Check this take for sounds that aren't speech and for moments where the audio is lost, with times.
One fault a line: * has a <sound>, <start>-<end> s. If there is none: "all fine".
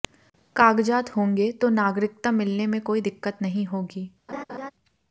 * has a laugh, 4.3-4.7 s